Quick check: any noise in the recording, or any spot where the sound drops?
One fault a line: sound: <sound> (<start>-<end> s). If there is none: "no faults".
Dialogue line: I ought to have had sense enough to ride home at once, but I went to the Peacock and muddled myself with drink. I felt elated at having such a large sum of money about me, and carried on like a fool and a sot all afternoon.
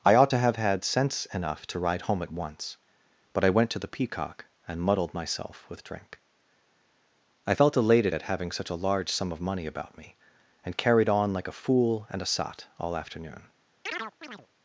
sound: chirp (13.9-14.5 s)